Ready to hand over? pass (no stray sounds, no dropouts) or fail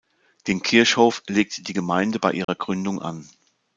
fail